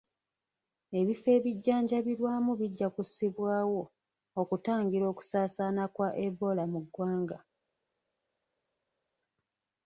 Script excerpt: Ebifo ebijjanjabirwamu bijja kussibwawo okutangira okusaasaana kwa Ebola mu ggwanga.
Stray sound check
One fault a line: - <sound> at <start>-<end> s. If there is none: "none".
none